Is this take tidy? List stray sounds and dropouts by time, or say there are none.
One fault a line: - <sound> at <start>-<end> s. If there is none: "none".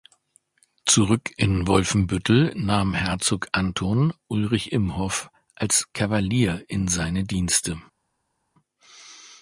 none